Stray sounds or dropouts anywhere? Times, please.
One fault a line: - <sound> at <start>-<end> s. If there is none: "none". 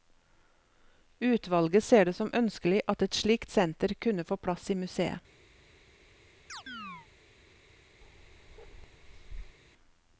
- chirp at 6.5-7.1 s
- bark at 8.0-9.6 s